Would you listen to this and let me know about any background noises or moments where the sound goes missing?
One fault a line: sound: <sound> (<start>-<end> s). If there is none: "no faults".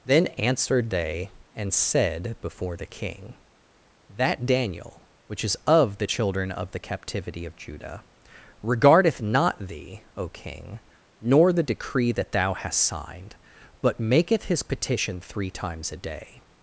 no faults